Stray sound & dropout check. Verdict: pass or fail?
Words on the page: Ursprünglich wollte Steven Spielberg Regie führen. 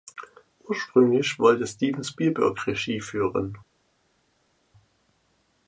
pass